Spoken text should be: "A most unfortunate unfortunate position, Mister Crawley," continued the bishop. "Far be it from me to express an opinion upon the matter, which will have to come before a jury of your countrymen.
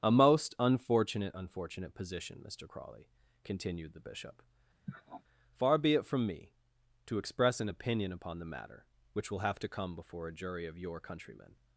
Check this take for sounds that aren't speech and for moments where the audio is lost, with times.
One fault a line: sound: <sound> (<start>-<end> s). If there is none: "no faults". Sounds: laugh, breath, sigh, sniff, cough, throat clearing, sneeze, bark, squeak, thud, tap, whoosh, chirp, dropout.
sound: sniff (4.9-5.2 s)